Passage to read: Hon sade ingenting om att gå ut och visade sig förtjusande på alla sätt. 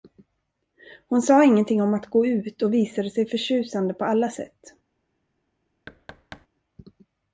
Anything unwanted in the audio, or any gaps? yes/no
yes